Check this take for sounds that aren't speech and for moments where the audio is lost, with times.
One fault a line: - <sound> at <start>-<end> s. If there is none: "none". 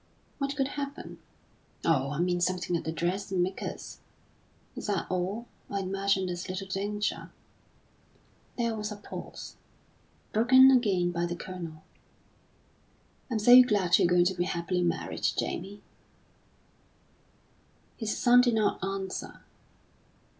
none